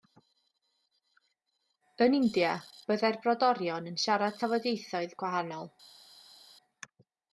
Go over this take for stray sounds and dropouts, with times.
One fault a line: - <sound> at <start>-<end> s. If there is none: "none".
none